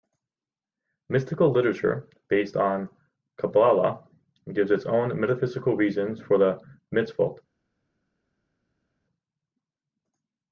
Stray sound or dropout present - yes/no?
no